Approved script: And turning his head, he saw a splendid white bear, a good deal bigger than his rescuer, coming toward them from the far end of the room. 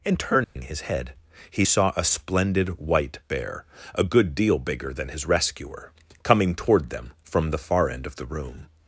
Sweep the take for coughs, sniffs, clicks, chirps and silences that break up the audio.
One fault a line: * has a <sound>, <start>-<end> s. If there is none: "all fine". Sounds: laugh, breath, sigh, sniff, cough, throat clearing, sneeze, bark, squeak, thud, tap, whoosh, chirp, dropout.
* has a dropout, 0.4-0.6 s